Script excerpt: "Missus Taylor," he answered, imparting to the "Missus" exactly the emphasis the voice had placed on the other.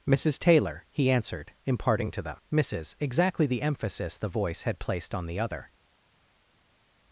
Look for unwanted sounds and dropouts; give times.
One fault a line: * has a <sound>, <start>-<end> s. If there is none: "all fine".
all fine